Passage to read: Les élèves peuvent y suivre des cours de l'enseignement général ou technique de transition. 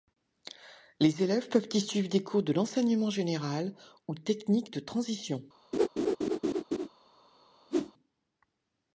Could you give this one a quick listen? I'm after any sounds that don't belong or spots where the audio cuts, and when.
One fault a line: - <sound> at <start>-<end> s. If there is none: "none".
- laugh at 5.7-6.9 s
- whoosh at 7.7-7.9 s